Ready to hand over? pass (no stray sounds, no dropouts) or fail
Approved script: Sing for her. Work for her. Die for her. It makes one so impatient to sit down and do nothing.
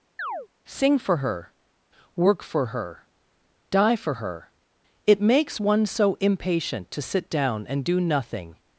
fail